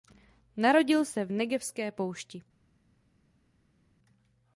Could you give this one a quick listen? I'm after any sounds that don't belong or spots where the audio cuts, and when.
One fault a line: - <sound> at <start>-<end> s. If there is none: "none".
none